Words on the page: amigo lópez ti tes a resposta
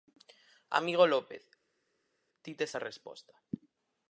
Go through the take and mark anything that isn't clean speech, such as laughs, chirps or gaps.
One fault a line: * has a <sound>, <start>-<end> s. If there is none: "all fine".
all fine